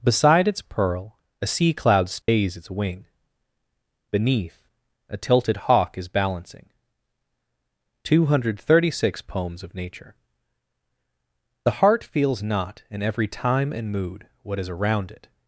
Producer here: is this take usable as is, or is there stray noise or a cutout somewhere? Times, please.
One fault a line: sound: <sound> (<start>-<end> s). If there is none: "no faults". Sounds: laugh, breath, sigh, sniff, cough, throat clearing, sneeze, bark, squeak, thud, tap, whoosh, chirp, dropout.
sound: dropout (2.2-2.3 s)